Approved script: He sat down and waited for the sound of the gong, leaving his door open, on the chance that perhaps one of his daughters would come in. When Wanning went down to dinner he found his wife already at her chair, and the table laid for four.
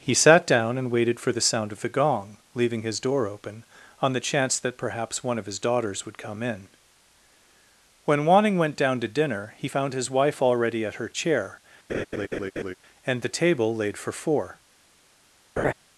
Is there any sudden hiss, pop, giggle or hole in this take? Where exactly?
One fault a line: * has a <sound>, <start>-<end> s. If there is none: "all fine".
* has a laugh, 11.9-12.7 s
* has a laugh, 15.6-15.7 s